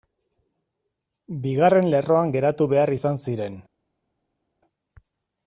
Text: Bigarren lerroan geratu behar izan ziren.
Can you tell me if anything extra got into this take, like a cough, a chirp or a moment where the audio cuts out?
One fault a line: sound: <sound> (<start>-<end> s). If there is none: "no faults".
no faults